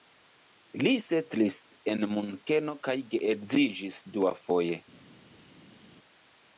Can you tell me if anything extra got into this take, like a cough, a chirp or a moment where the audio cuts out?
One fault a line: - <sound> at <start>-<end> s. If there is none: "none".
none